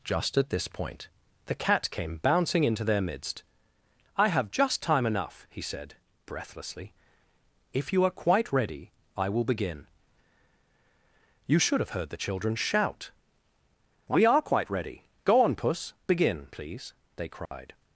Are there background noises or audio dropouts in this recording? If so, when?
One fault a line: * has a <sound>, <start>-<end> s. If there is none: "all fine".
* has a dropout, 17.5-17.5 s